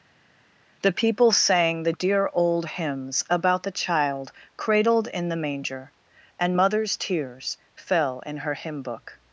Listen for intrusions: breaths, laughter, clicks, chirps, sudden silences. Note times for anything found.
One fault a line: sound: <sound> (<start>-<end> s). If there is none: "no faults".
no faults